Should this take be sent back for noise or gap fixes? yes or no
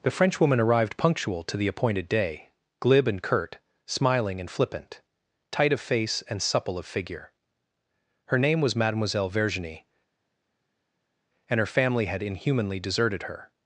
no